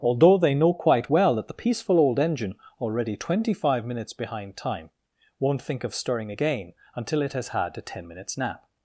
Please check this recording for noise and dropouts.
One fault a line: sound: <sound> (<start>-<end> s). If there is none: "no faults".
no faults